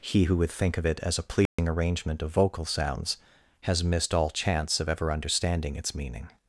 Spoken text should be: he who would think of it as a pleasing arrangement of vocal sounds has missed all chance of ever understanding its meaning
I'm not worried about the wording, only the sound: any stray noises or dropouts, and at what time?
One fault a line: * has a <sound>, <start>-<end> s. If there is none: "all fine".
* has a dropout, 1.5-1.6 s